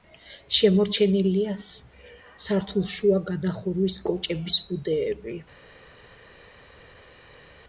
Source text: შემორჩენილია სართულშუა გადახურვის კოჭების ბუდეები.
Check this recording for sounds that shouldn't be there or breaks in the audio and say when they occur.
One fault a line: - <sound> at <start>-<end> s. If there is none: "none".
none